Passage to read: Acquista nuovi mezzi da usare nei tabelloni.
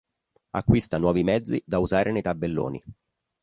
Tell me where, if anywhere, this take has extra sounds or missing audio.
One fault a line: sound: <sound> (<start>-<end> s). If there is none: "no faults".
no faults